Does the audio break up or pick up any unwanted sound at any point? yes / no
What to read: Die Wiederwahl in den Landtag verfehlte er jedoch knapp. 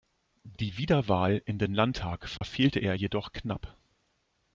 yes